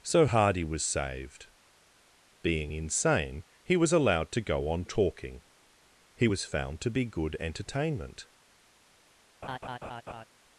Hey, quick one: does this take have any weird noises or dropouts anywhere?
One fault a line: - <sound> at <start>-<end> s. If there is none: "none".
- laugh at 9.4-10.2 s